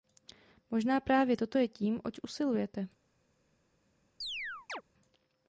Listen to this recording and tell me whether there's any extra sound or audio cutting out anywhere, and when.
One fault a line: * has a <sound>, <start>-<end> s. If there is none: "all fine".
* has a chirp, 4.2-4.8 s